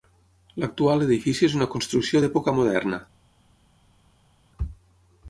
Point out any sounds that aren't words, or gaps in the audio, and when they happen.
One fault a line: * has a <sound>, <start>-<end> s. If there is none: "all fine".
all fine